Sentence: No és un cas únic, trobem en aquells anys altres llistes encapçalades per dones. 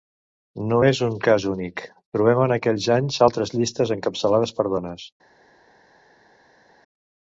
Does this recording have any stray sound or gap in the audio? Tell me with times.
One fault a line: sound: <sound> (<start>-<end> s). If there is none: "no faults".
no faults